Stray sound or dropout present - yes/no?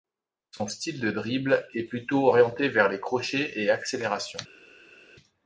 no